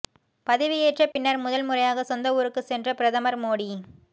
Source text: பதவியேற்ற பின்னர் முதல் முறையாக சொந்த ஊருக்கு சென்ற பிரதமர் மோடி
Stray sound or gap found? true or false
true